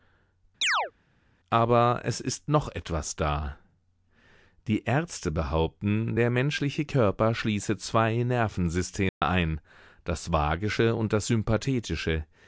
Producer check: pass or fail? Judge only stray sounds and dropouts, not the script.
fail